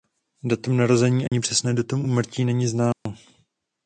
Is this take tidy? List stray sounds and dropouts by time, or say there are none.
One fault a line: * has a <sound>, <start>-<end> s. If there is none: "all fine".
* has a dropout, 1.3-1.3 s
* has a dropout, 2.9-3.1 s